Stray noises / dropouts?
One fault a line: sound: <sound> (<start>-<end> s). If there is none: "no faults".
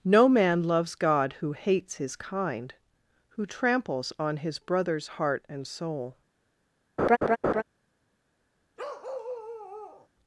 sound: laugh (7.0-7.6 s)
sound: bark (8.8-10.1 s)